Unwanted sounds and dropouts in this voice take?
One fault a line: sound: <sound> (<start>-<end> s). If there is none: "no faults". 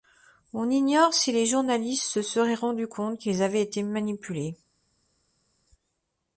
no faults